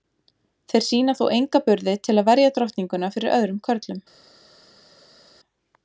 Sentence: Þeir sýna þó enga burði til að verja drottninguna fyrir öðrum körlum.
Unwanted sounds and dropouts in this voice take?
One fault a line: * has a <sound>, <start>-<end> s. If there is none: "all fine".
all fine